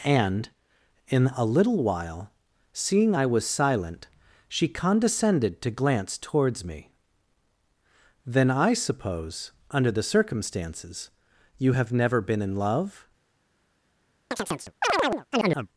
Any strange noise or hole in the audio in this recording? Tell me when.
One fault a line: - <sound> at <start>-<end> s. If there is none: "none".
- chirp at 14.3-15.7 s